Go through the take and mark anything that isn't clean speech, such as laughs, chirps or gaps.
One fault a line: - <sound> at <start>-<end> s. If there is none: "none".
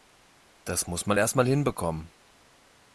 none